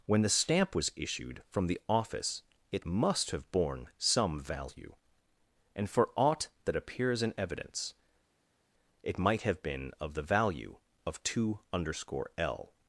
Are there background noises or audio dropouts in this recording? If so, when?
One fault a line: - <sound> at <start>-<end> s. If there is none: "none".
none